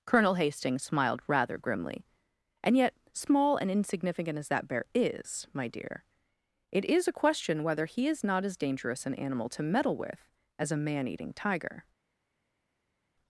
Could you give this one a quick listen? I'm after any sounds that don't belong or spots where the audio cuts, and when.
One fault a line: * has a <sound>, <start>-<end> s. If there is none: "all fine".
all fine